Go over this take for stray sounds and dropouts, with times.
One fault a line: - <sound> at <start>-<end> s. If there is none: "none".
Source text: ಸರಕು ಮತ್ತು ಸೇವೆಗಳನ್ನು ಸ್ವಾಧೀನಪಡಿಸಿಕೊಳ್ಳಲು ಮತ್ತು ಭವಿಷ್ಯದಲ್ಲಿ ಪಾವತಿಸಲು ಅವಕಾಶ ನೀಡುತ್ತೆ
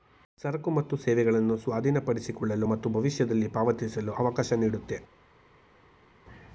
none